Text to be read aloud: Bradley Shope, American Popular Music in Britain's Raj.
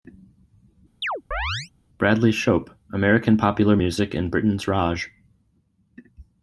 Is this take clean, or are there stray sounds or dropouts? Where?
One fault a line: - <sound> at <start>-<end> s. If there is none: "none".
- chirp at 1.0-1.7 s